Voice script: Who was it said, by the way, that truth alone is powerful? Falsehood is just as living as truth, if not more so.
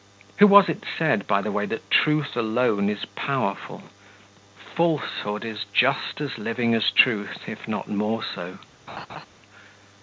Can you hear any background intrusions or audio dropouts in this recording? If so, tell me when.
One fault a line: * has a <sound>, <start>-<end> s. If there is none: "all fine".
* has a laugh, 8.9-9.3 s